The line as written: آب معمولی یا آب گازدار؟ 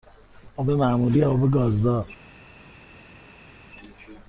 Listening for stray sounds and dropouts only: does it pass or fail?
pass